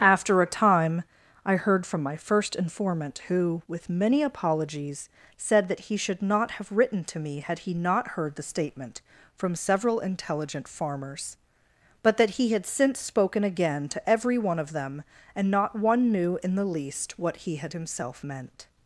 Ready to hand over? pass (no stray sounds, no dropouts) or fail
pass